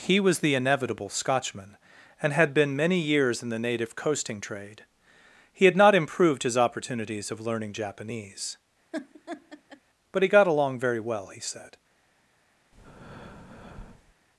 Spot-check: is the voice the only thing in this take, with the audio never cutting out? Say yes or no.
no